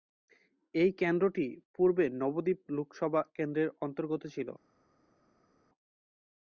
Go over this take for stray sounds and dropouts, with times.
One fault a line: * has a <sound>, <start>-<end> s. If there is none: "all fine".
all fine